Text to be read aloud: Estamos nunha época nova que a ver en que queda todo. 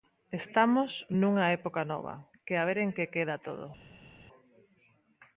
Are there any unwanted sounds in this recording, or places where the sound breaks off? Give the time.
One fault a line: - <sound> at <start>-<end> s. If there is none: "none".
none